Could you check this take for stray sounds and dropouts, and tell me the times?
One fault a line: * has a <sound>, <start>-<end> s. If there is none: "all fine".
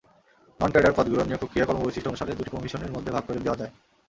all fine